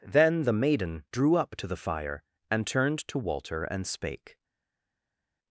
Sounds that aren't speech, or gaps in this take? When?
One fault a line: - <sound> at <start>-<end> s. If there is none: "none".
none